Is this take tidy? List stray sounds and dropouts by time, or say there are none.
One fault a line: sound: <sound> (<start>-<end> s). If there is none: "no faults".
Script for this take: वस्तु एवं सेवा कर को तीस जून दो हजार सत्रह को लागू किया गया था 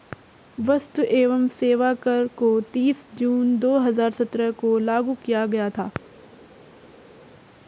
no faults